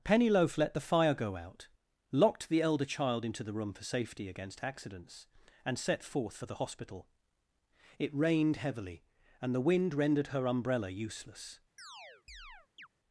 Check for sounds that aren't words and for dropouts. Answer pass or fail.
fail